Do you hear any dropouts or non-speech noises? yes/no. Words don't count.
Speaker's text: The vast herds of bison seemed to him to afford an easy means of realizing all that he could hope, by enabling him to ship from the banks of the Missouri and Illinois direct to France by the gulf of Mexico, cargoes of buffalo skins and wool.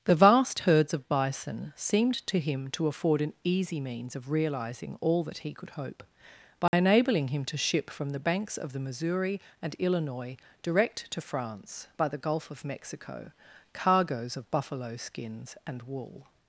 yes